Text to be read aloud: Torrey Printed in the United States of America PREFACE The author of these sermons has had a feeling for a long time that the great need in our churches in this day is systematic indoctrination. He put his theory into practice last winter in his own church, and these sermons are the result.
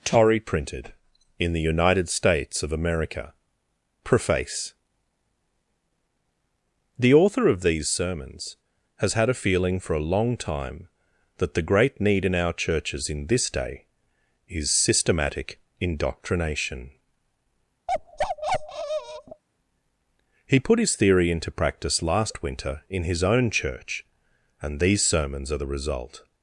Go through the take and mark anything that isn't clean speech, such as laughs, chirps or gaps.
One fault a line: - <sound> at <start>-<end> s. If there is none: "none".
- bark at 17.9-19.4 s